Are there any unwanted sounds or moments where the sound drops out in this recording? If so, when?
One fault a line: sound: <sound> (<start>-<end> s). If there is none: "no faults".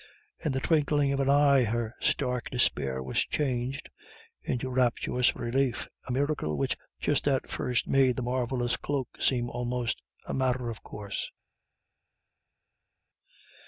no faults